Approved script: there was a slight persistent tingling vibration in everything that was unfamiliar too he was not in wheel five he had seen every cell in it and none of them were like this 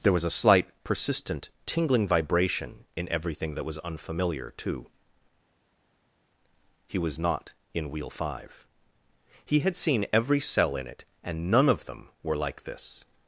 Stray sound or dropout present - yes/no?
no